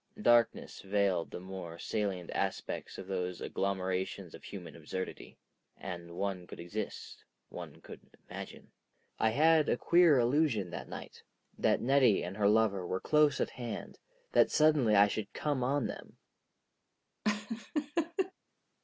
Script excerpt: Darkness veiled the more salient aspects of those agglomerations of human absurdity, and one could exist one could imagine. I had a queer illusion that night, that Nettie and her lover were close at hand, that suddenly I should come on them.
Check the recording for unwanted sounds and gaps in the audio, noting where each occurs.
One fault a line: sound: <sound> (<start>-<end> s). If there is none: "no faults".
sound: laugh (17.2-18.3 s)